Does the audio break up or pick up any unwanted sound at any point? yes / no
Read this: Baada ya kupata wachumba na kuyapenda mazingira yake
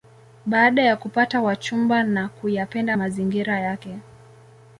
no